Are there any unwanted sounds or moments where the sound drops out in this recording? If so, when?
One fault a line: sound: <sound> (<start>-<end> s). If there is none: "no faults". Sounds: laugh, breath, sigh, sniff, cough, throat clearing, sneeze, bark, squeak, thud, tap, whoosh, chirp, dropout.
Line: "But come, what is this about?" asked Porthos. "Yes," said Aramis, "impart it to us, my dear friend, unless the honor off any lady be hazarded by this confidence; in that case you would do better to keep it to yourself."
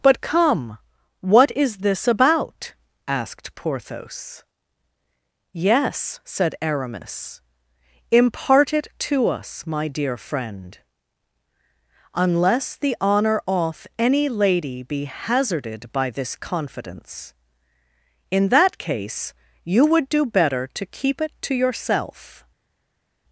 no faults